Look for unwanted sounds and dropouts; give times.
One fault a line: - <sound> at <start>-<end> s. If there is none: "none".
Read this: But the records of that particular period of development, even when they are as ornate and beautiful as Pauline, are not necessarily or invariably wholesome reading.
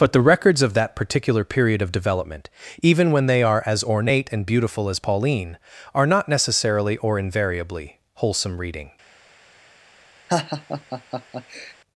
- laugh at 10.3-11.7 s